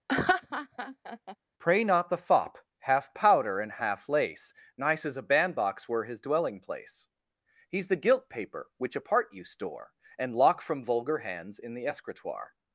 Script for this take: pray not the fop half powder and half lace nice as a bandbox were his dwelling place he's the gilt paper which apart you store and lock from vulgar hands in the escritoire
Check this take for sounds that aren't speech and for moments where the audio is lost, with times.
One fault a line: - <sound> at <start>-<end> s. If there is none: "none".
- laugh at 0.1-1.4 s